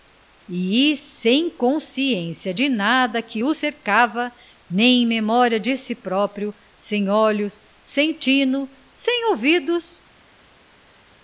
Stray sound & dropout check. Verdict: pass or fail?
pass